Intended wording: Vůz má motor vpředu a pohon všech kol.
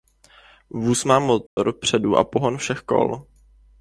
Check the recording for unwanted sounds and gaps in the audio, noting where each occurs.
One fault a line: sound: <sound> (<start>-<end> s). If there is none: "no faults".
sound: dropout (1.5-1.6 s)